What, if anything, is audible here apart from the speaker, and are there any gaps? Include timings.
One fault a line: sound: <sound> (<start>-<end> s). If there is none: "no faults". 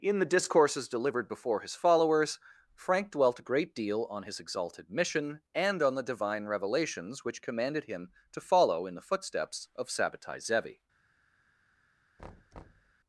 sound: thud (12.2-12.9 s)